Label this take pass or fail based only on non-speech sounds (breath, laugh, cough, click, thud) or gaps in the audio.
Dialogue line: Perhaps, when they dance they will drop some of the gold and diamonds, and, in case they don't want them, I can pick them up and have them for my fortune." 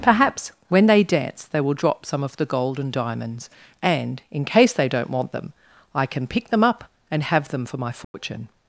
fail